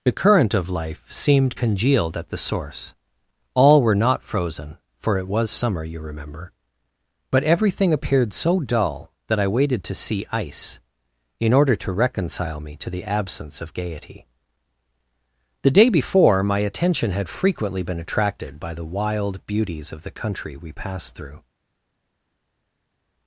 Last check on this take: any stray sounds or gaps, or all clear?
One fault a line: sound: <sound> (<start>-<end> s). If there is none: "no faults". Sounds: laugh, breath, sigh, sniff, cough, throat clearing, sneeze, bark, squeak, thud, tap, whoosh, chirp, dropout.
no faults